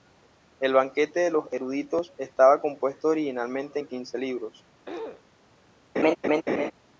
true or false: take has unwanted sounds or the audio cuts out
true